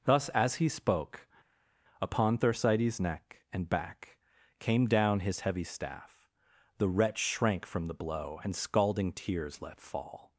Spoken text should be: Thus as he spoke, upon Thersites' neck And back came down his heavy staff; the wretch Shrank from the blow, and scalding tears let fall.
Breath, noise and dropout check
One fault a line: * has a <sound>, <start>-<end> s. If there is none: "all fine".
all fine